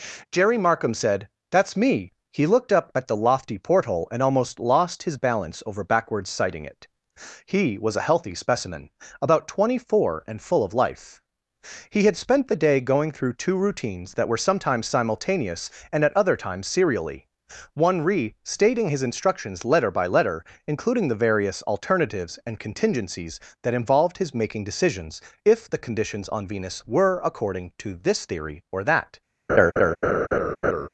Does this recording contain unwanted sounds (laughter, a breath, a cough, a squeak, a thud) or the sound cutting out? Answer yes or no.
yes